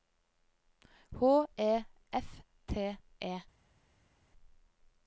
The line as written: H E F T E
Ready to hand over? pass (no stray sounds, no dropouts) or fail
pass